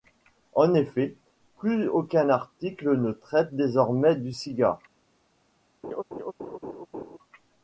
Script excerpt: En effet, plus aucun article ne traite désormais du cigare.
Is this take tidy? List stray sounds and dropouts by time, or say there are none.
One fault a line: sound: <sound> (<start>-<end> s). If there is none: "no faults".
sound: laugh (5.8-7.2 s)